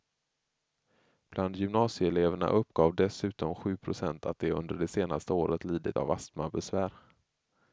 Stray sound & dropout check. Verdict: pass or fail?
pass